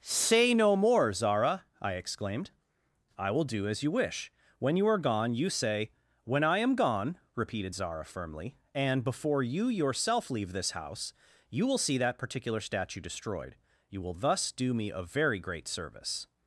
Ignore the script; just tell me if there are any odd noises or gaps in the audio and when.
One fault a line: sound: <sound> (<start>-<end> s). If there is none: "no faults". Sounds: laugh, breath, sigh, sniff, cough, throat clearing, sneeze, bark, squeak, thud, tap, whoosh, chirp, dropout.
no faults